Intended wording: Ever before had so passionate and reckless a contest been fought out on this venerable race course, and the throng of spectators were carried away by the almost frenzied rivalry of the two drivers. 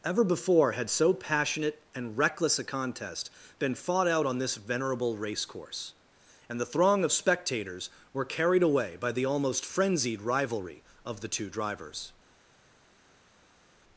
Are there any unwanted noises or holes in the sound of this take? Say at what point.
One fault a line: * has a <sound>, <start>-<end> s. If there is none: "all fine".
all fine